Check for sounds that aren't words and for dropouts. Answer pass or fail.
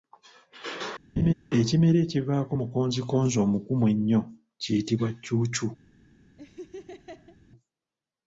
fail